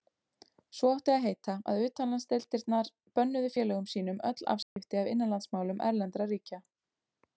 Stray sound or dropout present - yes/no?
yes